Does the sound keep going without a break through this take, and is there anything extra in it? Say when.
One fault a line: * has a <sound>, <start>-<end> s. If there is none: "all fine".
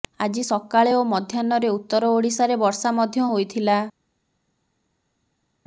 all fine